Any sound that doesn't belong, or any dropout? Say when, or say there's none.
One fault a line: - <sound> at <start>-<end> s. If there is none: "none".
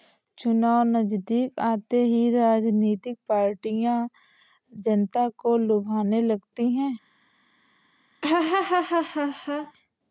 - laugh at 8.2-9.7 s